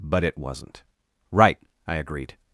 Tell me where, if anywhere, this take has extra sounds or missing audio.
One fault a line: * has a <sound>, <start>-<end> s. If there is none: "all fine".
all fine